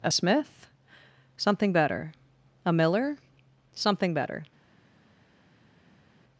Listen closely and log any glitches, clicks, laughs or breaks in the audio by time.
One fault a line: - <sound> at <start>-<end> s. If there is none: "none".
none